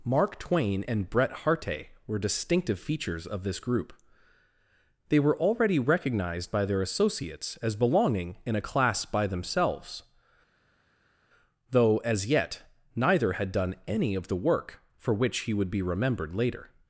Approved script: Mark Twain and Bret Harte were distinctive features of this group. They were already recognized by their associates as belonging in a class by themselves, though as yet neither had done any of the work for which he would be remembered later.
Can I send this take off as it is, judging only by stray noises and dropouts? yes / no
yes